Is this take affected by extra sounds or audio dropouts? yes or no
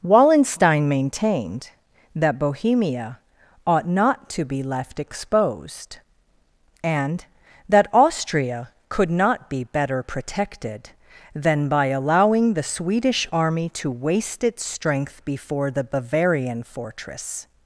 no